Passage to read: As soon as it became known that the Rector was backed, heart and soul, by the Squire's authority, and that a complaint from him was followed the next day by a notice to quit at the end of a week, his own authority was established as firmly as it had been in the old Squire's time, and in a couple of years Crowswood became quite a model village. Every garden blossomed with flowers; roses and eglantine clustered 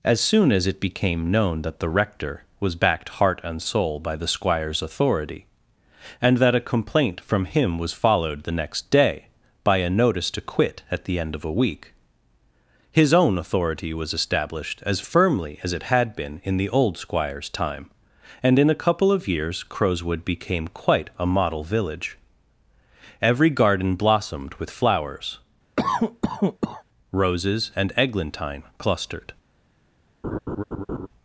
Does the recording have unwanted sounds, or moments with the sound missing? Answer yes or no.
yes